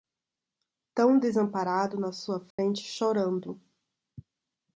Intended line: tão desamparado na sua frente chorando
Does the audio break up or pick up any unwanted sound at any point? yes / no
yes